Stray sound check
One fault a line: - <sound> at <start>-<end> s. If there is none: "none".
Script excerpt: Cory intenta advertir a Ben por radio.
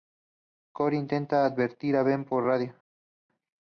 none